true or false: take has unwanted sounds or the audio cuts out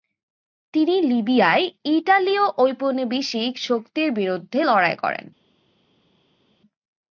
false